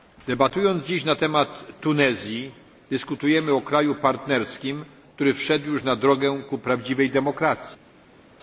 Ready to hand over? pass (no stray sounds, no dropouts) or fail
pass